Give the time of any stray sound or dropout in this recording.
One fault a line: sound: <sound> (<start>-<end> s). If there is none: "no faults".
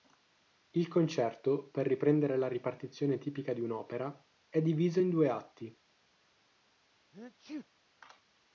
sound: sneeze (7.1-7.7 s)